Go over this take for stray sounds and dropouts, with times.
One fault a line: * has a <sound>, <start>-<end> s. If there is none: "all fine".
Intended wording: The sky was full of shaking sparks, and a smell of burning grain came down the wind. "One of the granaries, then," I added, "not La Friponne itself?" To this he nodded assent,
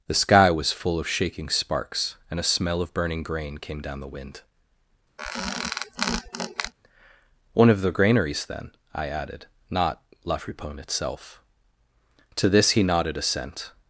* has a squeak, 5.2-6.7 s